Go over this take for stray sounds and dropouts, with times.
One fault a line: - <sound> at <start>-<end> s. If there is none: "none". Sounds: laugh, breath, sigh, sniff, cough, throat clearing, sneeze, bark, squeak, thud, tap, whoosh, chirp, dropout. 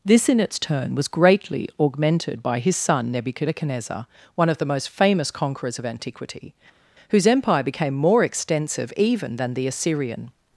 none